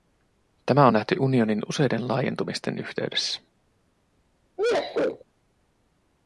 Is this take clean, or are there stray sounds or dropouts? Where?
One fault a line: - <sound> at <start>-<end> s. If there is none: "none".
- sneeze at 4.6-5.2 s